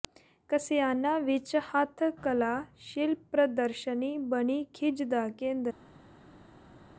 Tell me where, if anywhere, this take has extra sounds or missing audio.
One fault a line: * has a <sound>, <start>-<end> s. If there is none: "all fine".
all fine